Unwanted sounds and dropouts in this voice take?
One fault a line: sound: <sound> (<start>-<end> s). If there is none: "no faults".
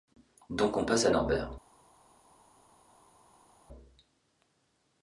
no faults